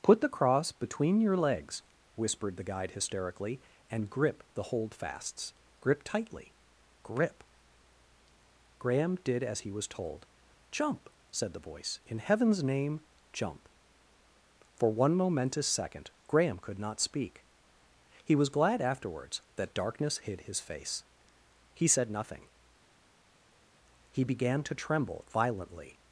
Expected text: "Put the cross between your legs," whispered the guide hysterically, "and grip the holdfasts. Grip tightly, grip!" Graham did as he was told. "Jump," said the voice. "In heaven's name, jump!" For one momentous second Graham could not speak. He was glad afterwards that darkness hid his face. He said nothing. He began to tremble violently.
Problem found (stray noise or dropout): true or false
false